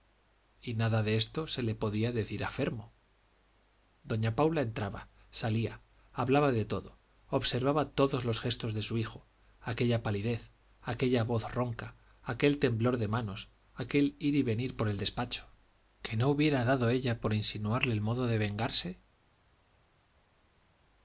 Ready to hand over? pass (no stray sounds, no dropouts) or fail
pass